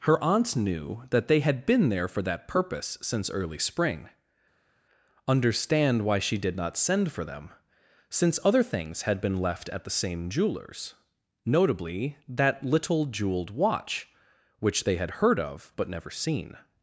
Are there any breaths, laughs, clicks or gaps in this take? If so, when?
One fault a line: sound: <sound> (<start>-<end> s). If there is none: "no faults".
no faults